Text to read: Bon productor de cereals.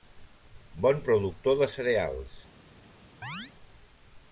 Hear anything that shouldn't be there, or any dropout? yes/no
yes